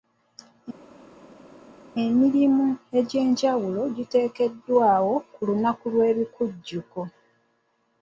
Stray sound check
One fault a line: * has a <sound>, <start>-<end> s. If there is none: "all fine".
all fine